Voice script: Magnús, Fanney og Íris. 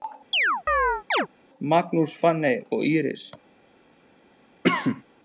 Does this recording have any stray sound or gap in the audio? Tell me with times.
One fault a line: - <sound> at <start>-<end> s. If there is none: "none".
- chirp at 0.3-1.3 s
- cough at 4.6-5.0 s